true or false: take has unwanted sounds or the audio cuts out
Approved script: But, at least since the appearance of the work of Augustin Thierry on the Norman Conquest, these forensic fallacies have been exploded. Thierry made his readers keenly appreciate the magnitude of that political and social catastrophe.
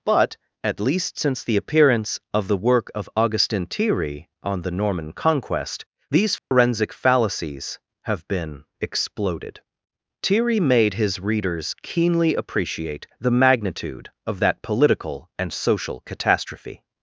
true